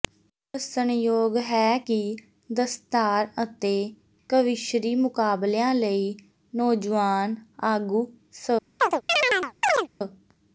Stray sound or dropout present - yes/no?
yes